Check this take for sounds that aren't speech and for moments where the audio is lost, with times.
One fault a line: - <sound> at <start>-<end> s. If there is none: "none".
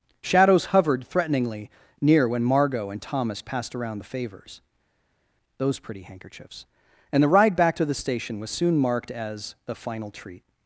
none